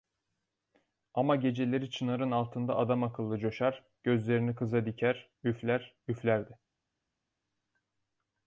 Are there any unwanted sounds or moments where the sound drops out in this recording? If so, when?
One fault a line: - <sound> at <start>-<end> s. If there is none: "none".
none